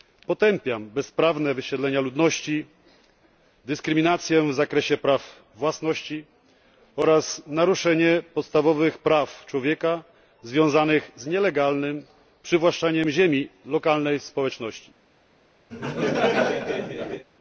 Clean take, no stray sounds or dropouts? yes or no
no